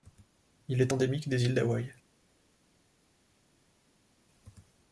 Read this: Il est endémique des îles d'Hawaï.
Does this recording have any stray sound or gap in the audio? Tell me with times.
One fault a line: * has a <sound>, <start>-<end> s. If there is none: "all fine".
all fine